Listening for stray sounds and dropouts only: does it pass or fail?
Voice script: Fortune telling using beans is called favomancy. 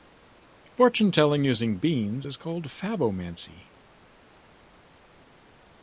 pass